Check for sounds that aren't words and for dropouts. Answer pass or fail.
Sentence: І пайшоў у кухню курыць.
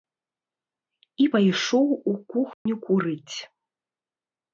fail